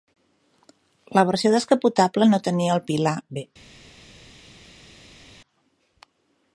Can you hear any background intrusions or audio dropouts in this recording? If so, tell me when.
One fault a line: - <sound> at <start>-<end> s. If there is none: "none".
none